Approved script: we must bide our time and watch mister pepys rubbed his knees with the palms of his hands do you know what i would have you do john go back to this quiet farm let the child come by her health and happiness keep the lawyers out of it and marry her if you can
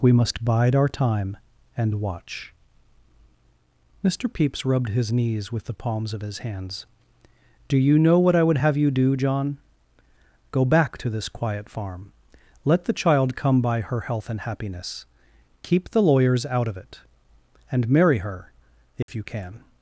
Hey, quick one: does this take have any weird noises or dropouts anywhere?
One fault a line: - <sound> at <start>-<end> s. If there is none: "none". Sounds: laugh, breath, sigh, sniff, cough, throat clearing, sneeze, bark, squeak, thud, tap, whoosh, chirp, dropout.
- dropout at 19.0-19.1 s